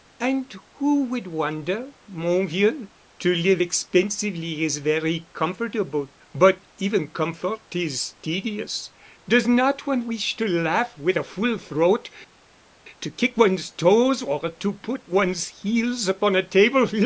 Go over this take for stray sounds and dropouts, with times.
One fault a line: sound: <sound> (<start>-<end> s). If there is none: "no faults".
no faults